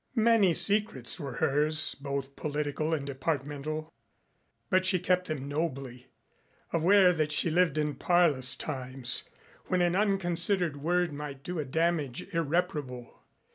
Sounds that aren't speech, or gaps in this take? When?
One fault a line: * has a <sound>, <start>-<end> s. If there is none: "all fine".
all fine